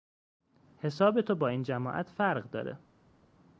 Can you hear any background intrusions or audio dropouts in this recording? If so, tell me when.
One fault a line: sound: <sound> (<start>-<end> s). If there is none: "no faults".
no faults